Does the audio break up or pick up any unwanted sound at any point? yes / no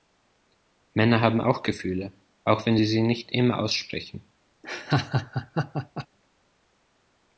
yes